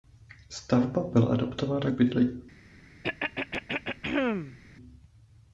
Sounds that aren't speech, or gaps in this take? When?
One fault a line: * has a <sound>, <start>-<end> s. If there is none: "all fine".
* has a throat clearing, 3.0-4.6 s